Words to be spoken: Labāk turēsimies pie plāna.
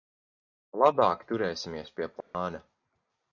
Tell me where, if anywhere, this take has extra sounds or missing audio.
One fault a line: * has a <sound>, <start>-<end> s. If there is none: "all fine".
* has a dropout, 2.2-2.3 s